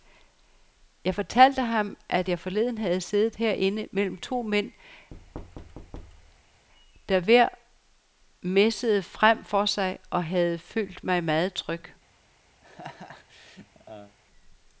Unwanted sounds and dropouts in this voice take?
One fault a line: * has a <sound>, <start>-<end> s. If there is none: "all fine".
* has a thud, 5.1-6.7 s
* has a laugh, 12.6-14.2 s